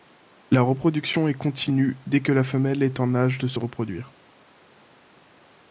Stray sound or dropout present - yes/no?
no